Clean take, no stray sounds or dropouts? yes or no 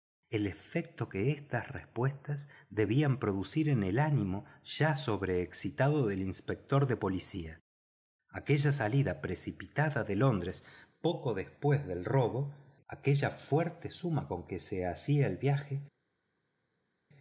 yes